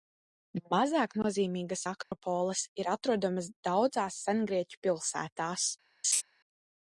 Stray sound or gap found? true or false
true